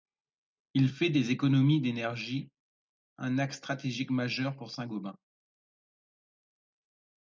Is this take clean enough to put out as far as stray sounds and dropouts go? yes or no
yes